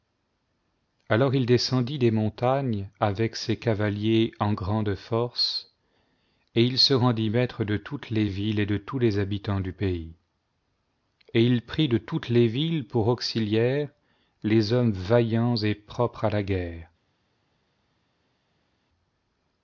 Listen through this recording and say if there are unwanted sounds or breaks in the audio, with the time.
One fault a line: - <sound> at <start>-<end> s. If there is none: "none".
none